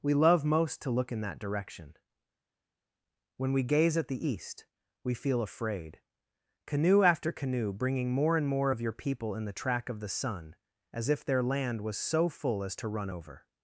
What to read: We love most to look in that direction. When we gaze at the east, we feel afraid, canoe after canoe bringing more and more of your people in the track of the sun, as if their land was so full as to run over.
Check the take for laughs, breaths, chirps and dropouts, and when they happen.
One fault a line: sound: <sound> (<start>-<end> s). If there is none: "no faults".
no faults